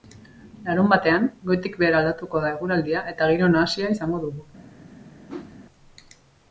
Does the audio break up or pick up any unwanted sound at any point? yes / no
yes